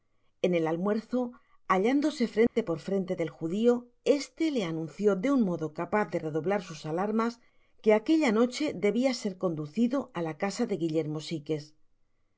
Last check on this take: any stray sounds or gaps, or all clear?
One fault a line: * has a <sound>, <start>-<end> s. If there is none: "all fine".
* has a dropout, 2.5-2.6 s